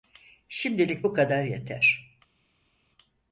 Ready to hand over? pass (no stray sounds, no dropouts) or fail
pass